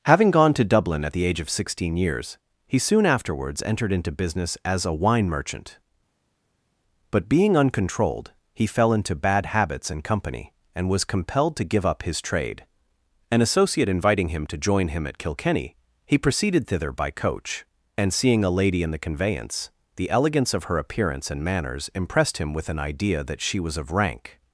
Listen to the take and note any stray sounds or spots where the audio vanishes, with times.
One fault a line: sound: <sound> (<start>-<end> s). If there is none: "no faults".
no faults